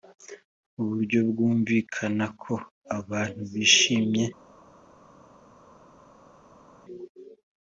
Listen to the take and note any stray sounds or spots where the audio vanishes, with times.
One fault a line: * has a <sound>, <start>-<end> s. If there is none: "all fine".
all fine